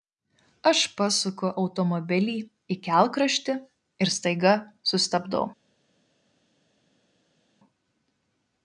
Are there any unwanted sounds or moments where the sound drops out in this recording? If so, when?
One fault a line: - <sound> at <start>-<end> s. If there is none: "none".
none